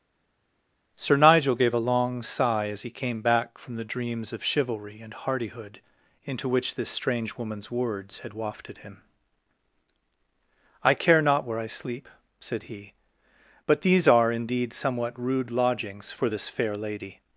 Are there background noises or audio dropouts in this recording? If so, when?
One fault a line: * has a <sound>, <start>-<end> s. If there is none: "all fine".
all fine